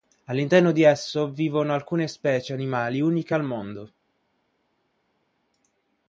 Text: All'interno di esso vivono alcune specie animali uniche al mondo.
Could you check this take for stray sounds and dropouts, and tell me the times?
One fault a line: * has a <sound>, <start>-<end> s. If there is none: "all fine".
all fine